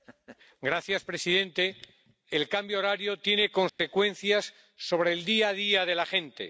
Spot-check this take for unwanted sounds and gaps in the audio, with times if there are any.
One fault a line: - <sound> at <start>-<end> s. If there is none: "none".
- dropout at 3.7-3.8 s